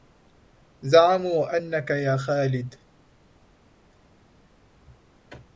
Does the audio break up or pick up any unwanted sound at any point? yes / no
no